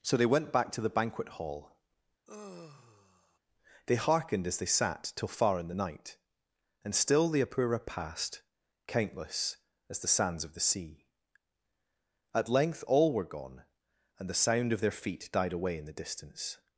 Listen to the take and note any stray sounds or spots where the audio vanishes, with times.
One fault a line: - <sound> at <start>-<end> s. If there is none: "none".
- sigh at 2.3-3.4 s